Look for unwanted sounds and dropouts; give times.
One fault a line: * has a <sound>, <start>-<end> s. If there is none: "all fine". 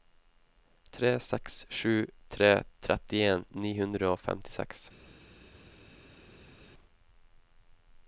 all fine